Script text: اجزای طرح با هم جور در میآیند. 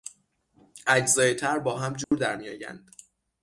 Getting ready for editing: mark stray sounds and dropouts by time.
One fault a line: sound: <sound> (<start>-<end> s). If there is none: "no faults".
sound: dropout (2.0-2.1 s)